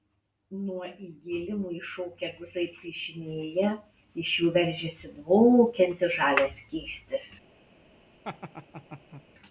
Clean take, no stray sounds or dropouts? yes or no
no